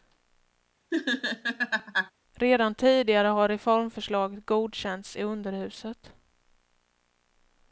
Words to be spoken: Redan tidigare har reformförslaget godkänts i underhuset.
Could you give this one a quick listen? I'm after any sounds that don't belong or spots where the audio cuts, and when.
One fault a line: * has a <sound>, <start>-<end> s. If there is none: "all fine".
* has a laugh, 0.9-2.1 s